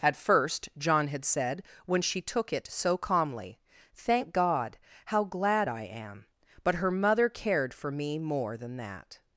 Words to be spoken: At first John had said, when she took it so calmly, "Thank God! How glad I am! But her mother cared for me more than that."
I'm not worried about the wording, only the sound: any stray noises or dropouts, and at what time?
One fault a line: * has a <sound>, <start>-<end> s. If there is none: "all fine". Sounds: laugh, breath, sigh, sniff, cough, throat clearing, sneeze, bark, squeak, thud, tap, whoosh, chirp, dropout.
all fine